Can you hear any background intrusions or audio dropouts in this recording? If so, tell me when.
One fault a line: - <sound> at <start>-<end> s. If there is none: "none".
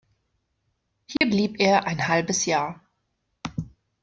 - dropout at 1.2-1.2 s